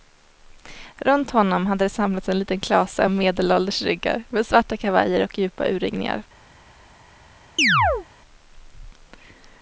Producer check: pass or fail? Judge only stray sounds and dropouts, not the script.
fail